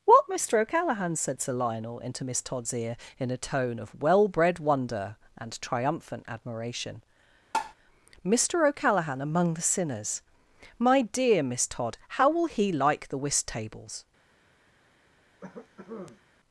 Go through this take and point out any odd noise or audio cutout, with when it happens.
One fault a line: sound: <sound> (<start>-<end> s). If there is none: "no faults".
sound: tap (7.5-7.7 s)
sound: cough (15.4-16.2 s)